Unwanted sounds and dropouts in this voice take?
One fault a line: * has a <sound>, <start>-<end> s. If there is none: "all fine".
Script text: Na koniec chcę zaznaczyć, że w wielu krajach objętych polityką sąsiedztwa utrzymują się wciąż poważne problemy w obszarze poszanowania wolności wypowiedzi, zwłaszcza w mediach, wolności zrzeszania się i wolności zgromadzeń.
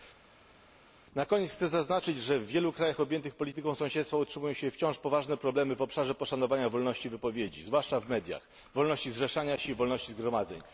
all fine